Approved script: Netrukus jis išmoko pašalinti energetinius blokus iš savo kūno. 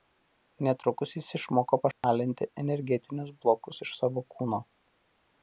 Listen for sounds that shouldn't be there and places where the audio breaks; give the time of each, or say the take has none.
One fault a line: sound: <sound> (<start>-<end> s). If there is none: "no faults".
sound: dropout (1.9-2.0 s)